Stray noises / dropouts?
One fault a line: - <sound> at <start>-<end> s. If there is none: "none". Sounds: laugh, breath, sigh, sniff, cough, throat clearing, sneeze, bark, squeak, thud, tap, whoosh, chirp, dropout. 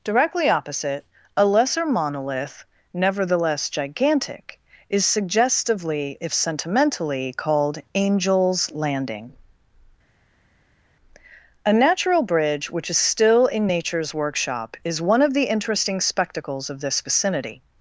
none